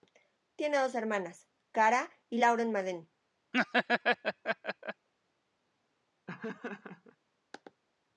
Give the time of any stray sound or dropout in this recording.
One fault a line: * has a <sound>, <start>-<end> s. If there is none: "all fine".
* has a laugh, 3.5-5.1 s
* has a laugh, 6.3-7.2 s